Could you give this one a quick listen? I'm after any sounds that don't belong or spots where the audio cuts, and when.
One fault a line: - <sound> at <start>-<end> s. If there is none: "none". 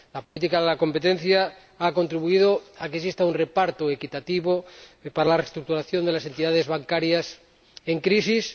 - dropout at 0.2-0.4 s